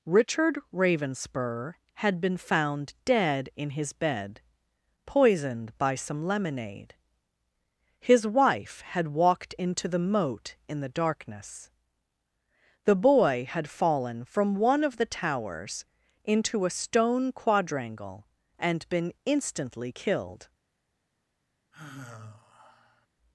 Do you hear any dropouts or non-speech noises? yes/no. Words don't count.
yes